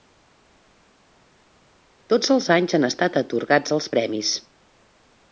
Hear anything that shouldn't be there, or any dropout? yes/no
no